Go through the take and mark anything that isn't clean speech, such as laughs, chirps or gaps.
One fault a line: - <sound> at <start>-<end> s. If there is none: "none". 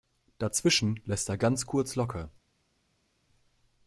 none